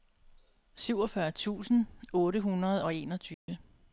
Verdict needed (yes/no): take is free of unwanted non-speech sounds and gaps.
no